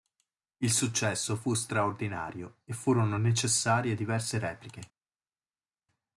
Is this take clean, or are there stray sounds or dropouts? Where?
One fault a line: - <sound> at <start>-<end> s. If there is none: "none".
none